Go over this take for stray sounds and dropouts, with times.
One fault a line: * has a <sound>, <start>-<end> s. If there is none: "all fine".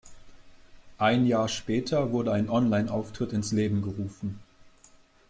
all fine